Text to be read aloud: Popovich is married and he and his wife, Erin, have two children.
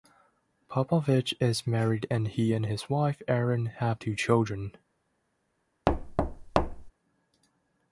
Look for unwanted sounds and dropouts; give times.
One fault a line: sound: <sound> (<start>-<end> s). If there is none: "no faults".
sound: thud (5.9-6.9 s)